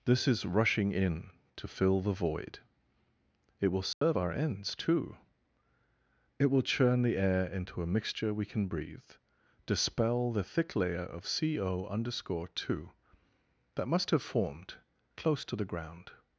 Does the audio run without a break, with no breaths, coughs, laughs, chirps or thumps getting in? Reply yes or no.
no